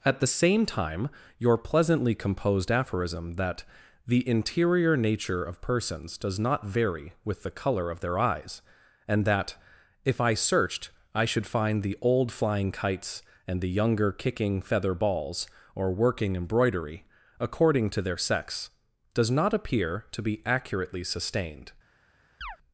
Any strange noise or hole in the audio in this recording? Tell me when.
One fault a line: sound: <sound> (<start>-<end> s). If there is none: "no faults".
sound: chirp (22.4-22.6 s)